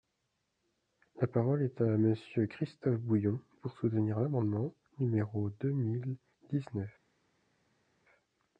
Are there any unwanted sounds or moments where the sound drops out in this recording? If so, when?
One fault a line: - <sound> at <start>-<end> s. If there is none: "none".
none